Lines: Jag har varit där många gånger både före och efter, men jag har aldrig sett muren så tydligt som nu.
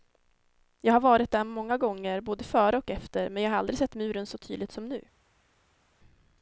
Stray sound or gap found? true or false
false